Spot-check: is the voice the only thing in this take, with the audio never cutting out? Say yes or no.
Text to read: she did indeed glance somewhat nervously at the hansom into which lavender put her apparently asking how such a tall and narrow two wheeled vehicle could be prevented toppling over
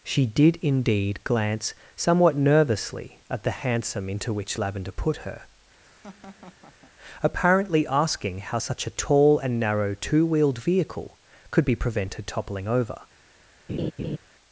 no